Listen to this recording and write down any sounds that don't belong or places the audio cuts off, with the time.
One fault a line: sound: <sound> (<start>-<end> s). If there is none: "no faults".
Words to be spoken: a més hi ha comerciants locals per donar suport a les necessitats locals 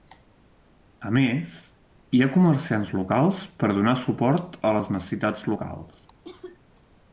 sound: cough (6.2-6.6 s)